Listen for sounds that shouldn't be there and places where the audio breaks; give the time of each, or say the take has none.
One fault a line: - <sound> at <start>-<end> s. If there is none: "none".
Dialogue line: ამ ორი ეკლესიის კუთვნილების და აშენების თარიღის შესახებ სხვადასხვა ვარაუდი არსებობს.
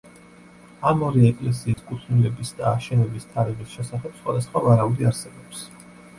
- dropout at 1.7-1.8 s